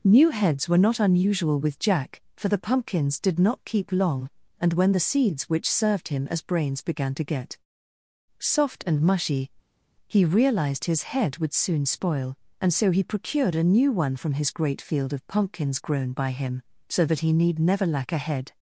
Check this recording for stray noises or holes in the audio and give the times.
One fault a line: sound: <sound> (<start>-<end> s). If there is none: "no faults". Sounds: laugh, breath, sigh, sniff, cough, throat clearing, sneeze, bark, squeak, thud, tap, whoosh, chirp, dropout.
no faults